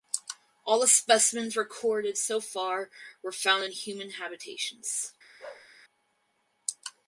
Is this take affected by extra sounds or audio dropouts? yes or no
yes